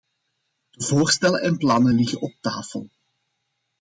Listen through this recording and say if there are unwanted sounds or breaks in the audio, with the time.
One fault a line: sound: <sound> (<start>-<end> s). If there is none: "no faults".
no faults